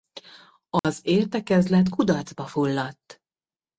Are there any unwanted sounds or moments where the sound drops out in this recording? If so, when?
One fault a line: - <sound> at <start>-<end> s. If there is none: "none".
- dropout at 0.8-0.8 s